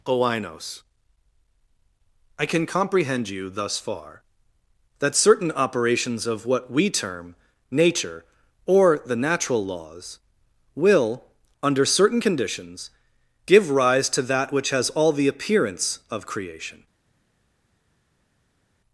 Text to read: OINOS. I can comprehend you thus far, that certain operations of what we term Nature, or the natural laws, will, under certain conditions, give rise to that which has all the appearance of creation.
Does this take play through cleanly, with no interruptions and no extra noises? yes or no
yes